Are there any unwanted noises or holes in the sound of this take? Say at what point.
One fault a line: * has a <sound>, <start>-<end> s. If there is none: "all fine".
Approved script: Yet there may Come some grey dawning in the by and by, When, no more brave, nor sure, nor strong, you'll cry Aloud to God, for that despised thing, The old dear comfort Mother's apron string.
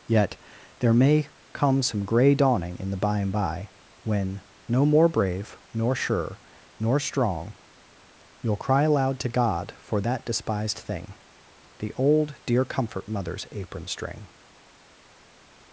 all fine